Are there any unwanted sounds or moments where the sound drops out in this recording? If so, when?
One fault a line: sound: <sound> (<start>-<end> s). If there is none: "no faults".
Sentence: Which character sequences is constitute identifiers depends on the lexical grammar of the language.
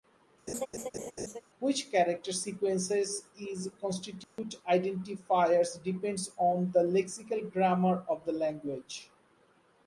sound: laugh (0.5-1.4 s)
sound: dropout (4.2-4.4 s)